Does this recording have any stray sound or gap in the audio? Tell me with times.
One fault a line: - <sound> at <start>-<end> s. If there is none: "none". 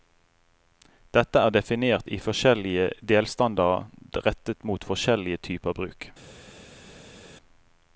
none